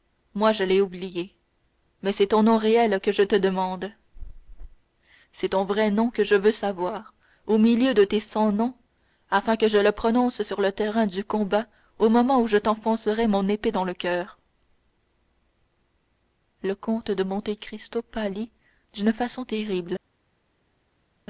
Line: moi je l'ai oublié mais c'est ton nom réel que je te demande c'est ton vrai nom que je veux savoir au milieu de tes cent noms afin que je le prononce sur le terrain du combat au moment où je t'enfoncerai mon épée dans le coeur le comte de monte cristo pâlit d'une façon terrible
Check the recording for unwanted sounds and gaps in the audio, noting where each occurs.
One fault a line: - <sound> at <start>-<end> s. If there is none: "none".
none